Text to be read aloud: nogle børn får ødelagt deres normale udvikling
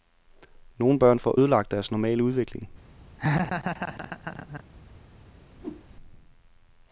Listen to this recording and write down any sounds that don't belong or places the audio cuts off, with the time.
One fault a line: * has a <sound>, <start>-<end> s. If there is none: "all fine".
* has a laugh, 3.2-4.6 s
* has a whoosh, 5.6-5.9 s